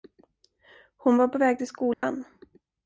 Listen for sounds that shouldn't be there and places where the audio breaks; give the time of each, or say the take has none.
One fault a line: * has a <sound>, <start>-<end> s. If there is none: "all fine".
* has a dropout, 1.9-2.0 s